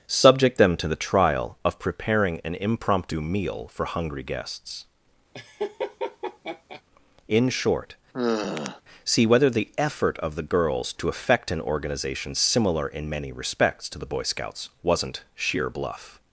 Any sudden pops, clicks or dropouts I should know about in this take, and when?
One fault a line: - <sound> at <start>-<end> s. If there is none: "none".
- laugh at 5.3-6.8 s
- sigh at 8.1-8.8 s